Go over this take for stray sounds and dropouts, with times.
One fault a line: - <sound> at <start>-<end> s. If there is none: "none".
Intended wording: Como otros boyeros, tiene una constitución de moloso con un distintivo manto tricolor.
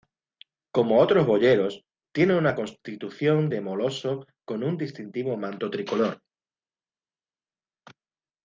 none